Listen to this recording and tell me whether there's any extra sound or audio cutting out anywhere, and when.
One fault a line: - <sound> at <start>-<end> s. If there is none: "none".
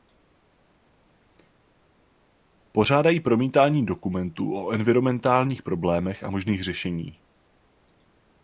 none